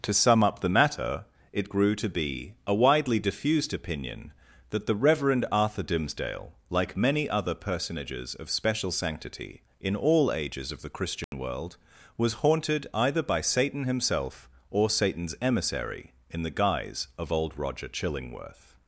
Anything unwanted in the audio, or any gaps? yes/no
yes